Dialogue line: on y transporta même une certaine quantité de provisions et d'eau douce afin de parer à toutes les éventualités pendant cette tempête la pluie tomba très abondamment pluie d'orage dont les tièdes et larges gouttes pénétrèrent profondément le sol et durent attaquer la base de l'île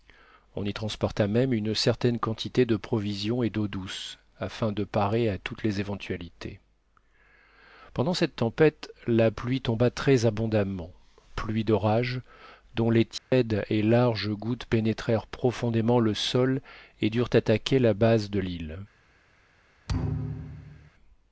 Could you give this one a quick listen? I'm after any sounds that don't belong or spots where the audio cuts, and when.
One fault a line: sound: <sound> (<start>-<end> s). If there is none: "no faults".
sound: dropout (13.2-13.3 s)
sound: thud (19.9-20.9 s)